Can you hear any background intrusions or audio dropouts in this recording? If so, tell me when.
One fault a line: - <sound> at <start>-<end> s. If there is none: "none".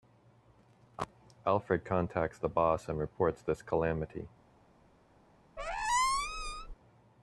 - squeak at 5.6-6.7 s